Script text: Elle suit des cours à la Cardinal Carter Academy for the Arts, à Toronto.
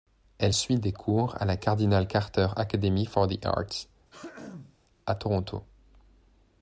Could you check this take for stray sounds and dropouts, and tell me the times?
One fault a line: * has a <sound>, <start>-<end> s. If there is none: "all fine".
* has a throat clearing, 4.1-4.8 s